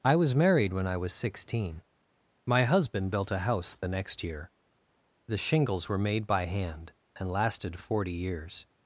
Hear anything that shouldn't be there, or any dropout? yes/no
no